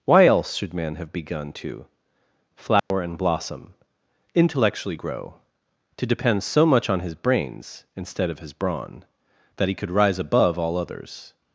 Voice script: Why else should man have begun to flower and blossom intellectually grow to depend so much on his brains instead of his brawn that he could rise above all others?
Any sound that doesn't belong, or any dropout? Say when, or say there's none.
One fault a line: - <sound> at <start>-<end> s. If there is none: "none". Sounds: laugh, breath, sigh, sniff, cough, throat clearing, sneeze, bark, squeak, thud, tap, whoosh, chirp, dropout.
- dropout at 2.8-2.9 s